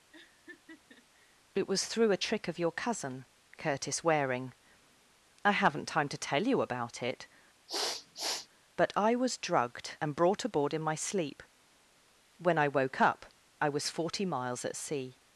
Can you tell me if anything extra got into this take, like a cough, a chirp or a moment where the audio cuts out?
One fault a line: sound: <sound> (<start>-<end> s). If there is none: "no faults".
sound: laugh (0.1-1.4 s)
sound: sniff (7.7-8.5 s)